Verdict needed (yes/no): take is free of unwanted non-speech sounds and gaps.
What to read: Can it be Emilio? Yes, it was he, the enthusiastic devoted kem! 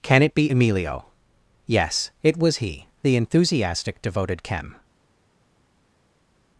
yes